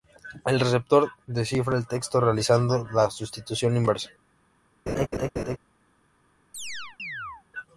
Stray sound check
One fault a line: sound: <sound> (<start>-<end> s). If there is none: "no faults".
sound: laugh (4.9-5.6 s)
sound: chirp (6.5-7.4 s)